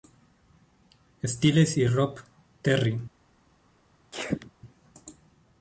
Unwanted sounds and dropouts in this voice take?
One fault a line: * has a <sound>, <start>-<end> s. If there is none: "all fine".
* has a sneeze, 4.1-4.5 s